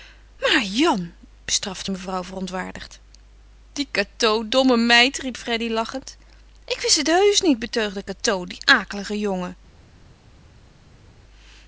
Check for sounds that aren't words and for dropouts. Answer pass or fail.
pass